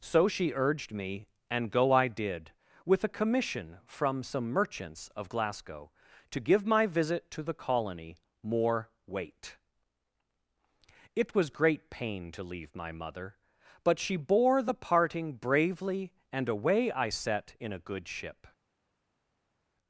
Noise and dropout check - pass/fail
pass